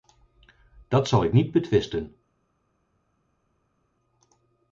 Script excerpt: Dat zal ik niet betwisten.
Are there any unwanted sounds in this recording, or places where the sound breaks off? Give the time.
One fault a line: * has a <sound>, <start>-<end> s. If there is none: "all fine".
all fine